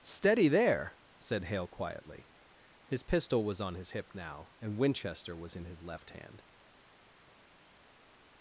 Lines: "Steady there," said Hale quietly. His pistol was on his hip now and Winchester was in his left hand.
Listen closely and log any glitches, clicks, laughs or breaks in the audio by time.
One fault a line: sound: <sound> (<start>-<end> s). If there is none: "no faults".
no faults